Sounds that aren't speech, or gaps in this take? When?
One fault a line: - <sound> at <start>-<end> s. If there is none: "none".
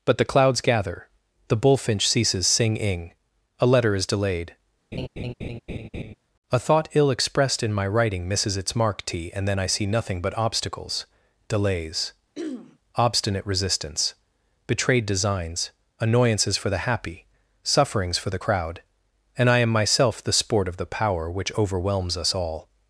- laugh at 4.9-6.1 s
- throat clearing at 12.4-12.8 s